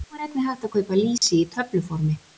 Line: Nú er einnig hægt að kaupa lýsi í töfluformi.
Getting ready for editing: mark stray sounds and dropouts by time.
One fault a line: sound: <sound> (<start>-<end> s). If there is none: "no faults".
sound: dropout (1.2-1.2 s)